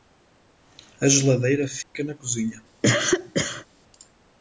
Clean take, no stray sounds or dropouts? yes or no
no